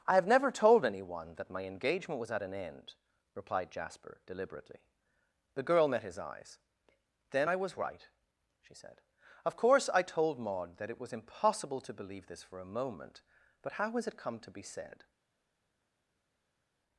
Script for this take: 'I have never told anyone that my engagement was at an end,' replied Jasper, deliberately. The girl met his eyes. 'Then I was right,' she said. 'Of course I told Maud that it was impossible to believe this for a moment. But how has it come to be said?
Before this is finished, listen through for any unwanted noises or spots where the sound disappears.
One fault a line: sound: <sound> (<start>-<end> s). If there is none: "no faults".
no faults